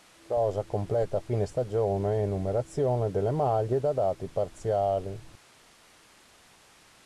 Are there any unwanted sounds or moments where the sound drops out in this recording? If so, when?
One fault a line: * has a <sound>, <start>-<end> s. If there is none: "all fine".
all fine